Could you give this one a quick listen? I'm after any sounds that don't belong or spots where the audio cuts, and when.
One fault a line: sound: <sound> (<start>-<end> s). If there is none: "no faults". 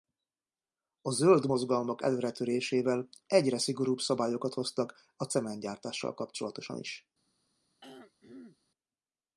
sound: throat clearing (7.8-8.6 s)